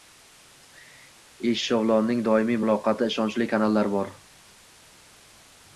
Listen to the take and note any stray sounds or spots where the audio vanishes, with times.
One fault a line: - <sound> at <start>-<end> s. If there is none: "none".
none